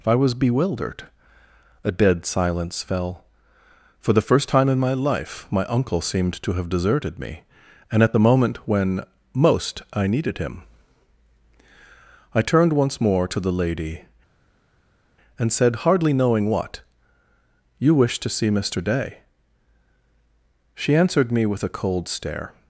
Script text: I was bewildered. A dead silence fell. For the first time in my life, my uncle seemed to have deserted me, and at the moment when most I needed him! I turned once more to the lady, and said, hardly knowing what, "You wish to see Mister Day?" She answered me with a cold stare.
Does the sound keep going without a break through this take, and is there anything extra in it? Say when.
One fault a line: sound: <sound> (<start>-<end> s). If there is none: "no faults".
no faults